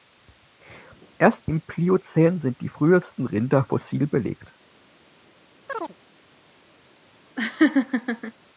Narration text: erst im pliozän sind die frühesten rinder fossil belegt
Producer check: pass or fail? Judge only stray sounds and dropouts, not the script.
fail